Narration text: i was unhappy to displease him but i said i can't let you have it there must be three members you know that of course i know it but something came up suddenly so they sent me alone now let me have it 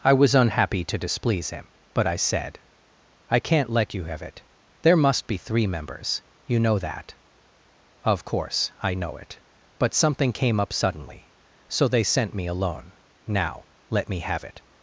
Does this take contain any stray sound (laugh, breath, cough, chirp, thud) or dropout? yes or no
no